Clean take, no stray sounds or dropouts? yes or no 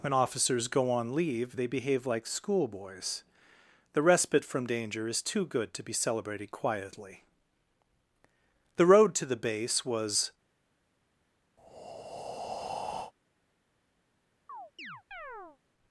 no